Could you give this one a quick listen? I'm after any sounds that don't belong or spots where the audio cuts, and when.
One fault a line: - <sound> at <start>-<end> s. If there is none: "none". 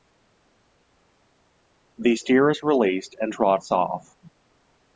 none